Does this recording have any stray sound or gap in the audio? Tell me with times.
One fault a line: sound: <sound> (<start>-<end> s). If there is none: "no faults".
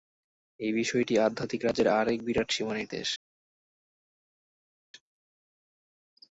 no faults